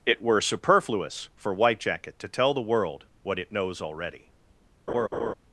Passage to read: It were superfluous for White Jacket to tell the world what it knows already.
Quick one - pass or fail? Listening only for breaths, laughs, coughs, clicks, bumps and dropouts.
fail